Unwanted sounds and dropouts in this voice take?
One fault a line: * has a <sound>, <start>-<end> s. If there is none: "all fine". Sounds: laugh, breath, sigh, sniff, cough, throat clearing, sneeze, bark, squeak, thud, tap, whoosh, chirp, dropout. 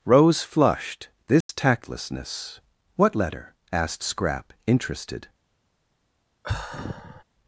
* has a dropout, 1.4-1.5 s
* has a sigh, 6.4-7.2 s